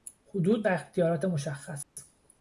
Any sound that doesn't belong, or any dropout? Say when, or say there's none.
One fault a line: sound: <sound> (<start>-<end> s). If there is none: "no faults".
sound: dropout (1.8-2.0 s)